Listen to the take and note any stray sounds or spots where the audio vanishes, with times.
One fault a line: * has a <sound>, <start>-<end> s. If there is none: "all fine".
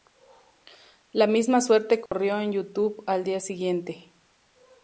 * has a dropout, 2.1-2.1 s